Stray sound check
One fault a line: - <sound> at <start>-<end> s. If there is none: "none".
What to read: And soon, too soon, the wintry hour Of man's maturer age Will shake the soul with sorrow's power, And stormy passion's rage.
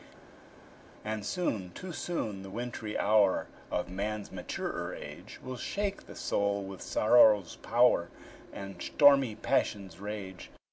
none